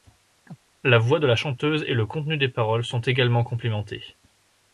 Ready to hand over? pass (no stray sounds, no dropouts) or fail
fail